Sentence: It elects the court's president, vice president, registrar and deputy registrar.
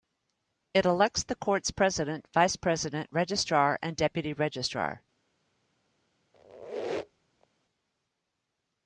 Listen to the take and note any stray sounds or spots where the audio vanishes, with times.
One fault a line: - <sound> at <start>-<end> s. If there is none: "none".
- squeak at 6.3-7.5 s